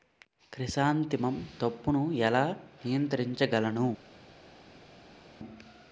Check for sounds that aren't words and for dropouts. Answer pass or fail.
pass